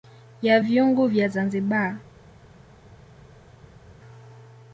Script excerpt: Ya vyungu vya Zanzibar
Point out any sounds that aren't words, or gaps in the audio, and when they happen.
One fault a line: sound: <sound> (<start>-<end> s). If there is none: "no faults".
no faults